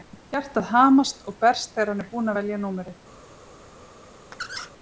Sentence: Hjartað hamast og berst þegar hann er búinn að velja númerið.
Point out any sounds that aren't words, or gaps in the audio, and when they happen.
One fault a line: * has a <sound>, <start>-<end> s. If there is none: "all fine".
* has a squeak, 4.3-4.7 s